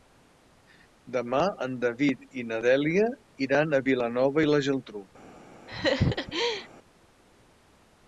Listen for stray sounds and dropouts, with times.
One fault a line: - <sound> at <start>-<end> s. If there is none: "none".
- laugh at 5.7-6.7 s